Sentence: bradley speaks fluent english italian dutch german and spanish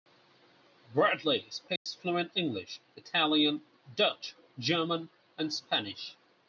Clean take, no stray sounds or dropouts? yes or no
no